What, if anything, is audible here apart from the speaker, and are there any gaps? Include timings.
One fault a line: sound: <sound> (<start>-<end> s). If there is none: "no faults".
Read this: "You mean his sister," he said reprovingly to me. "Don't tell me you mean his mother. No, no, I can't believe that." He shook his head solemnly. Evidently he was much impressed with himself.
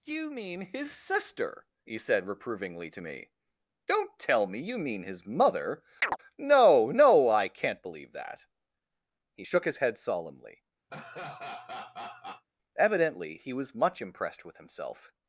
sound: chirp (6.0-6.2 s)
sound: laugh (10.9-12.5 s)